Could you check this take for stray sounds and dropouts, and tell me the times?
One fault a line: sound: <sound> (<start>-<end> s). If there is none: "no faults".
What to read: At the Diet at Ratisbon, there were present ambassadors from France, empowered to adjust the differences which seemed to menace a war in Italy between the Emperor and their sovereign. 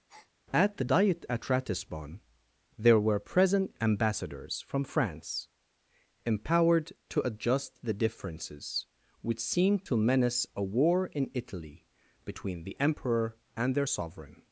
sound: breath (0.1-0.3 s)